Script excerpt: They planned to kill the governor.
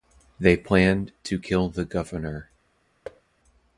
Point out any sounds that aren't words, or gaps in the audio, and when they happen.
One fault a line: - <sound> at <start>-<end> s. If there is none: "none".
- thud at 3.0-3.2 s